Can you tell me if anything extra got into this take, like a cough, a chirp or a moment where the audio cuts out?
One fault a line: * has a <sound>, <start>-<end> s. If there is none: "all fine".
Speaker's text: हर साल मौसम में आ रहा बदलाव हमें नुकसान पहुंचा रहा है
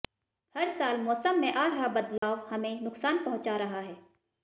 * has a dropout, 2.2-2.2 s